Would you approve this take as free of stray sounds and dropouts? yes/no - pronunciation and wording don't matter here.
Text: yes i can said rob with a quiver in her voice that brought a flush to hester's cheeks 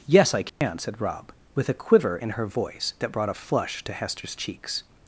no